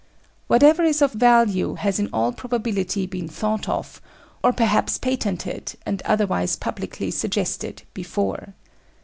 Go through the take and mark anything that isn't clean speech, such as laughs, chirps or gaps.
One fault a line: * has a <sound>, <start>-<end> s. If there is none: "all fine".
all fine